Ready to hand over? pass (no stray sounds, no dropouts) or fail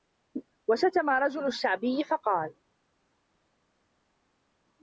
pass